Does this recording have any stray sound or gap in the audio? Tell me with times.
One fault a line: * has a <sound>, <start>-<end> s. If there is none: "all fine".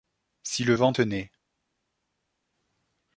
all fine